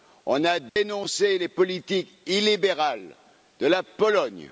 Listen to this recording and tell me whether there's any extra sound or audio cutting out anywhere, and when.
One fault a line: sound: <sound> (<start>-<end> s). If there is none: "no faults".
sound: dropout (0.7-0.8 s)